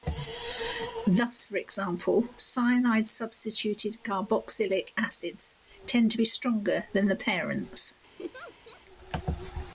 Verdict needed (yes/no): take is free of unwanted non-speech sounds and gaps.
no